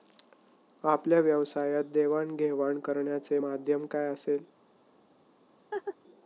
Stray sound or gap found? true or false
true